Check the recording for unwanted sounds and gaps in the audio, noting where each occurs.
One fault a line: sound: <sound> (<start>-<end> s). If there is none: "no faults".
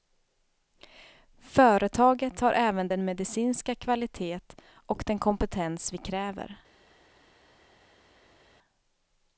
no faults